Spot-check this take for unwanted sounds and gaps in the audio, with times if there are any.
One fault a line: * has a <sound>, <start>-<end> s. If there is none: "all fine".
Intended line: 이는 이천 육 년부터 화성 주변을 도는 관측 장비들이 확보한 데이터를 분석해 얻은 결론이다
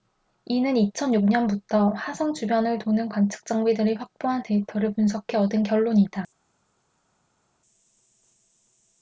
all fine